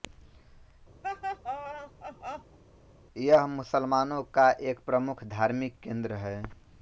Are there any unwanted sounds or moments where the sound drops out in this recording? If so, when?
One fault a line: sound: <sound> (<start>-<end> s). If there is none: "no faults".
sound: laugh (1.0-2.6 s)